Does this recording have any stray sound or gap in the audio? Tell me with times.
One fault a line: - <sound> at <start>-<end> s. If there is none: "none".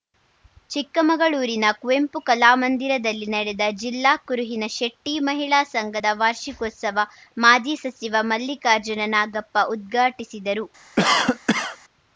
- cough at 11.0-11.8 s